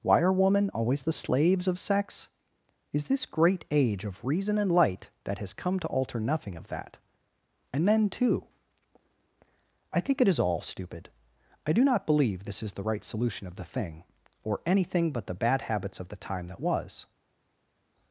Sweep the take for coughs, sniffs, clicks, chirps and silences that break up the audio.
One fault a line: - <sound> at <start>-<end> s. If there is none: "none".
none